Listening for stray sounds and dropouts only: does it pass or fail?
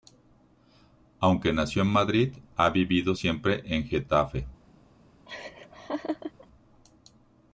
fail